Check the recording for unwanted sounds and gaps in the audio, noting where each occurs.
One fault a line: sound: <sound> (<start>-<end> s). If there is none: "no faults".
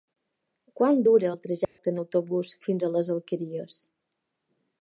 sound: dropout (1.6-1.8 s)